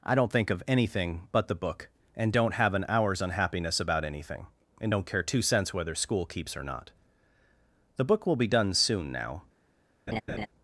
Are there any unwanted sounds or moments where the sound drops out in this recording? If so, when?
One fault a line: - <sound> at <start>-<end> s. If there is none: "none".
- laugh at 10.1-10.5 s